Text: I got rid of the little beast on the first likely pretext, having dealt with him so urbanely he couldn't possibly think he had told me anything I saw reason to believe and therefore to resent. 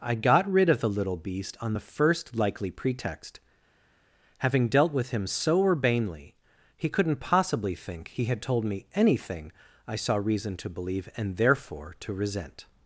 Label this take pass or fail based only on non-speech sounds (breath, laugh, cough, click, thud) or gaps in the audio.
pass